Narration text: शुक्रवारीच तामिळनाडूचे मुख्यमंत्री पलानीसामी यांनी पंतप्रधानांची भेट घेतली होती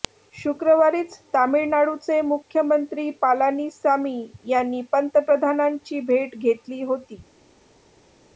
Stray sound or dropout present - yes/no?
no